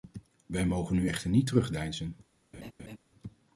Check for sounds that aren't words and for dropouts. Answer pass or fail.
fail